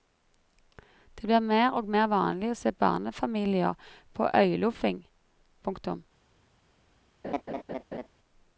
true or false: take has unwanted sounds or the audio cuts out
true